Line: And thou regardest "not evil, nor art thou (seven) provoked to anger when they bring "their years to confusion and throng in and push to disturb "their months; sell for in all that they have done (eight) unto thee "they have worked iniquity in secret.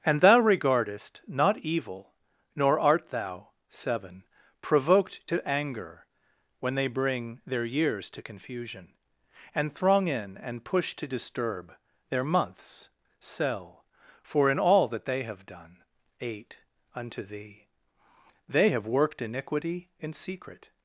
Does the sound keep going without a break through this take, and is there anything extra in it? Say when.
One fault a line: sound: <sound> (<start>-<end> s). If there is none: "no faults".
no faults